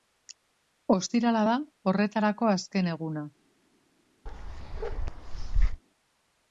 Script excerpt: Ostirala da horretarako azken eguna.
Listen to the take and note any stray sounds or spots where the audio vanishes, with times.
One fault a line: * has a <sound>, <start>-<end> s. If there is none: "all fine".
* has a bark, 4.3-5.8 s